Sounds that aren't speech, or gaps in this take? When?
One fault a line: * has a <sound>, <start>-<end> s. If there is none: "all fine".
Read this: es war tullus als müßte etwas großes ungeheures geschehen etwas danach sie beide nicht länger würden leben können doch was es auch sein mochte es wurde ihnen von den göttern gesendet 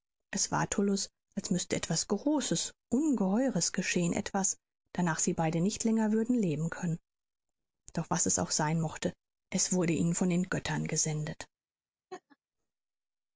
* has a laugh, 12.1-12.4 s